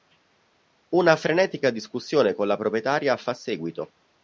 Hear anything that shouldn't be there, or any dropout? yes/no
no